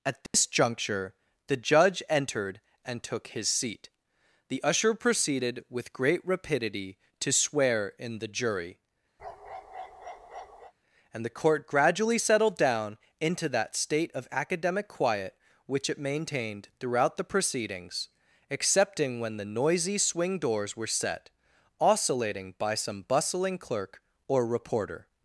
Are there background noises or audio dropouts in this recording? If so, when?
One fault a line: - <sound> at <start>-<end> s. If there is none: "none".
- dropout at 0.3-0.3 s
- bark at 9.2-10.7 s